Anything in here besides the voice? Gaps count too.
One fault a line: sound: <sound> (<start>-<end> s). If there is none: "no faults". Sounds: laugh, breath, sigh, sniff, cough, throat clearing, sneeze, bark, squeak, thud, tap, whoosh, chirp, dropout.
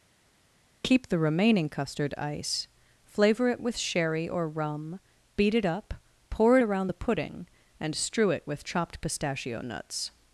no faults